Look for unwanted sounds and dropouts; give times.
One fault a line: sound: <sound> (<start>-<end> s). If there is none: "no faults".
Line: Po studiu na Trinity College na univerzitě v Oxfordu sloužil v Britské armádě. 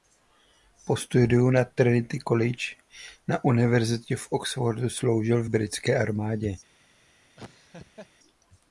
sound: laugh (7.4-8.1 s)